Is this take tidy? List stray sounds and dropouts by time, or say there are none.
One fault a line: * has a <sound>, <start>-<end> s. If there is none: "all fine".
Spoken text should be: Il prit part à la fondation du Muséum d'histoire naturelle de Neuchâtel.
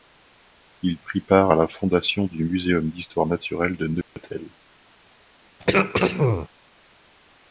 * has a dropout, 4.0-4.2 s
* has a throat clearing, 5.6-6.5 s